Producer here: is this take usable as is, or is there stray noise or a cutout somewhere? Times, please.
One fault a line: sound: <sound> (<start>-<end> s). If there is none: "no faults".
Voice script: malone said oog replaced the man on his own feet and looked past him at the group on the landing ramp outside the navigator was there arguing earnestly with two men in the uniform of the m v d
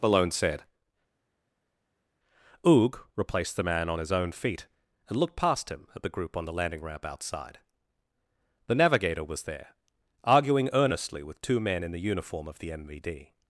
no faults